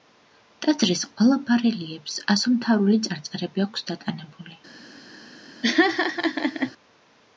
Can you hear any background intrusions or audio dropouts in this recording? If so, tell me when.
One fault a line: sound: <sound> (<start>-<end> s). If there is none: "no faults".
sound: laugh (5.6-6.7 s)